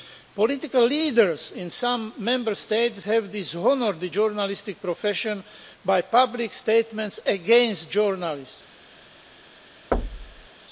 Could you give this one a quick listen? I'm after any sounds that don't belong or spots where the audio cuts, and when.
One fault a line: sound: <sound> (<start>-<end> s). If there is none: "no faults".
sound: thud (9.9-10.5 s)